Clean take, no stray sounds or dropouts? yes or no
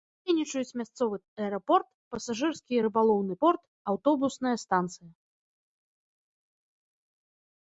yes